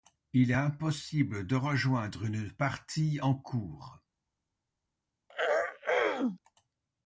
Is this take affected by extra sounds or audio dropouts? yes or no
yes